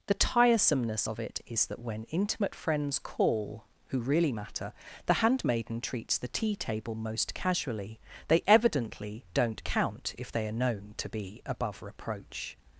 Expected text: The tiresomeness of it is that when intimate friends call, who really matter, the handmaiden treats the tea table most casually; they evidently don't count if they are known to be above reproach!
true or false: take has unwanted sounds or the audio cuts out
false